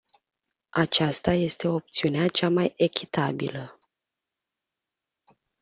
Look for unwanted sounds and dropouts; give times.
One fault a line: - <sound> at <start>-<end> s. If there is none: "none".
none